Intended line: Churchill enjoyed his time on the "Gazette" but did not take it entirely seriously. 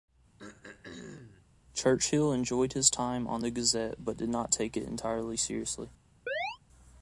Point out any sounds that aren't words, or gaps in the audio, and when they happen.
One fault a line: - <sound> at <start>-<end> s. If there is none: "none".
- throat clearing at 0.4-1.5 s
- chirp at 6.3-6.6 s